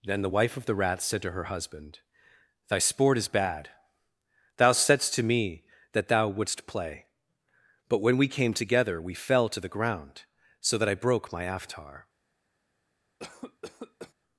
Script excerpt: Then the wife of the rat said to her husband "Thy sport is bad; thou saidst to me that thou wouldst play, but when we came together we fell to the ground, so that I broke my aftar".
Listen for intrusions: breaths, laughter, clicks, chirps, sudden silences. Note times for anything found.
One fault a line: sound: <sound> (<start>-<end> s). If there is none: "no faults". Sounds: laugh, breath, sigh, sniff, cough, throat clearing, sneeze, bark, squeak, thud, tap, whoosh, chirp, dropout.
sound: cough (13.2-14.1 s)